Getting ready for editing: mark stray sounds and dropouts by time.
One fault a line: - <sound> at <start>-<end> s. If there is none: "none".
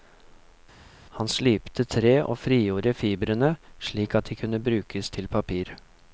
none